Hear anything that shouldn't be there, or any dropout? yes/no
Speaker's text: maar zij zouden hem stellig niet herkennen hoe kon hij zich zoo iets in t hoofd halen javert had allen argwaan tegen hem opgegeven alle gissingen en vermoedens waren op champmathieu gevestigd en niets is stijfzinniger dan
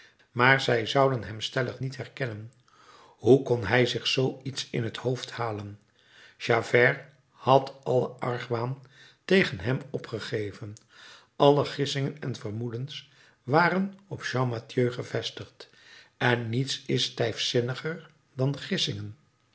no